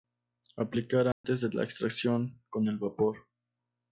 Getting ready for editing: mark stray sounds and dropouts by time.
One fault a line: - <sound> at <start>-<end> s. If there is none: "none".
- dropout at 1.1-1.2 s